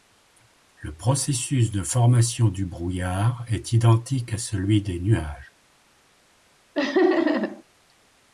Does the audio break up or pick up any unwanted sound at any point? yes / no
yes